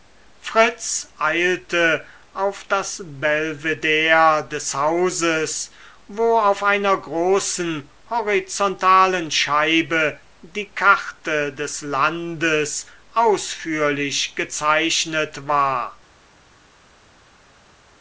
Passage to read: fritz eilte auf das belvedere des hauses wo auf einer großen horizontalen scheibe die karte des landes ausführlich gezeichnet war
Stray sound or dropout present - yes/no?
no